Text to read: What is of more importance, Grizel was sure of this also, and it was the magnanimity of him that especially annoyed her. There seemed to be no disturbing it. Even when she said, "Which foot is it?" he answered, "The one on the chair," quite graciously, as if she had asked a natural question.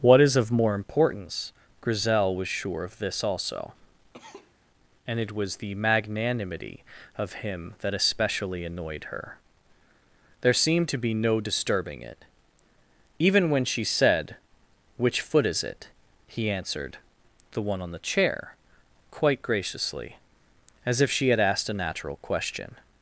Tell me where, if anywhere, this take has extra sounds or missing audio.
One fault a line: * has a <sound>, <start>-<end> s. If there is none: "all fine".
* has a cough, 4.1-4.5 s